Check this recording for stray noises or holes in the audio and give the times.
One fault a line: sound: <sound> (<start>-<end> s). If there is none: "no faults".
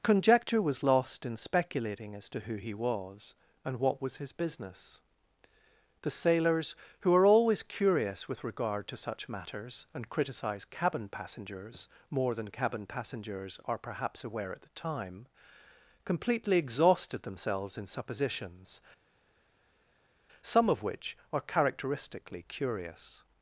no faults